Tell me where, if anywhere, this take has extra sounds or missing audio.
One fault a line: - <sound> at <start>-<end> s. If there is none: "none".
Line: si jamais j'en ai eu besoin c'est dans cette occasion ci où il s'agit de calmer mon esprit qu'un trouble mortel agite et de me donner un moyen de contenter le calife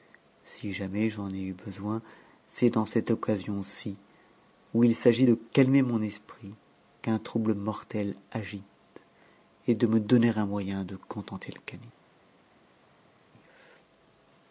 none